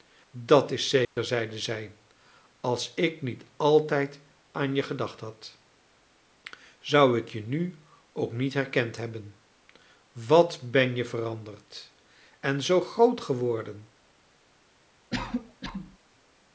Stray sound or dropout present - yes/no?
yes